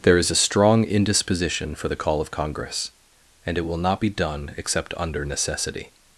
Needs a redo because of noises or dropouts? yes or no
no